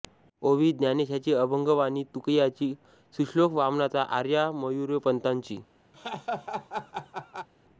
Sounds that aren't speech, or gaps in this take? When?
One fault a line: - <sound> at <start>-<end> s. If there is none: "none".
- laugh at 5.9-7.5 s